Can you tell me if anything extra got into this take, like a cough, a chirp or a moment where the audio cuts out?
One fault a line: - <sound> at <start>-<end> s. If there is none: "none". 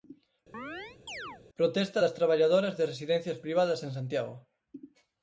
- chirp at 0.5-1.4 s